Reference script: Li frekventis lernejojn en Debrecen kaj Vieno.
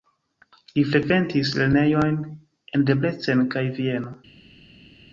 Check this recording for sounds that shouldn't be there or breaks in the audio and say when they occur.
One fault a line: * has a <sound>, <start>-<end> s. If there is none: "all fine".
all fine